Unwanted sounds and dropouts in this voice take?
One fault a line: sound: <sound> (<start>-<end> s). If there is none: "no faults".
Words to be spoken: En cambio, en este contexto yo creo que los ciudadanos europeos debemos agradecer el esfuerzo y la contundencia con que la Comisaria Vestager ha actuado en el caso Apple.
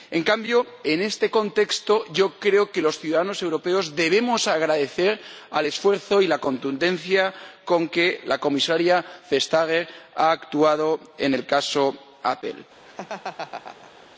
sound: laugh (12.8-14.1 s)